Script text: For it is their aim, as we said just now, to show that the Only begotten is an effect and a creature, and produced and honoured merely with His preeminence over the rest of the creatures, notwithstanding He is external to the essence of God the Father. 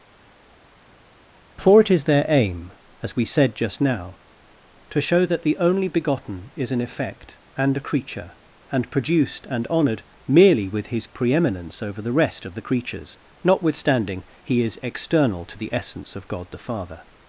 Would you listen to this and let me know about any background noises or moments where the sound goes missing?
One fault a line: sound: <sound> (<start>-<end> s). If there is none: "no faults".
no faults